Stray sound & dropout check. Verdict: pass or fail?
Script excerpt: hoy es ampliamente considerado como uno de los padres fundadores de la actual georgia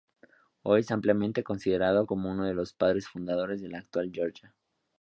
pass